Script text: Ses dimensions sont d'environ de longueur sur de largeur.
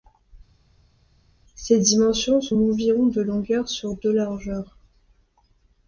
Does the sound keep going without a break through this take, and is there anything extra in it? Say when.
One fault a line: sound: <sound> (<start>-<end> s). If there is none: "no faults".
no faults